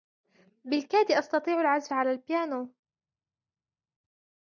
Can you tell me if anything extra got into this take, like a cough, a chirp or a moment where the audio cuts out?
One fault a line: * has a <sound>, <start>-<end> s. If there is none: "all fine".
all fine